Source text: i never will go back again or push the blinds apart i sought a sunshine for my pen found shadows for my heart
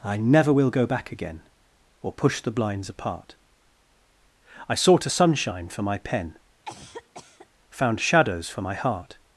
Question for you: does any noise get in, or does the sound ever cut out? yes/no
yes